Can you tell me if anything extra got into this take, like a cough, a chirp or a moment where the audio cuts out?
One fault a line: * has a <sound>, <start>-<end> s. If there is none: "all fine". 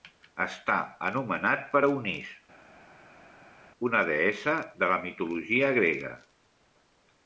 all fine